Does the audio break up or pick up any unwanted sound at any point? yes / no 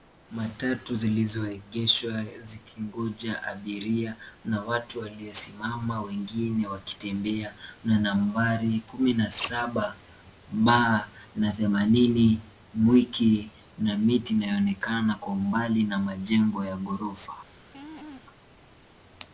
yes